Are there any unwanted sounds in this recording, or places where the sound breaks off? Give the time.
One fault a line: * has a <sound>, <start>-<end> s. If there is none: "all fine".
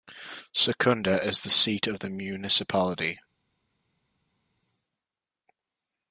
all fine